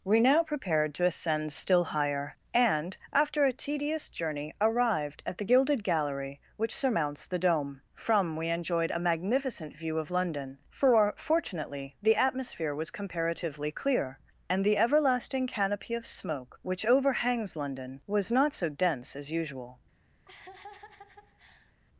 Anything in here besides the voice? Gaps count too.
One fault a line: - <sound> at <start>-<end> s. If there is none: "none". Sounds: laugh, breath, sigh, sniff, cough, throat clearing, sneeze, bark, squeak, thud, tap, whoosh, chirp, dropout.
- laugh at 20.3-21.7 s